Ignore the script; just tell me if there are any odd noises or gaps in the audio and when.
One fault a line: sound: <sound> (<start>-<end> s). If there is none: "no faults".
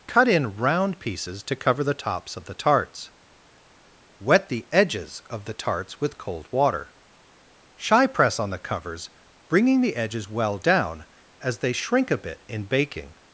no faults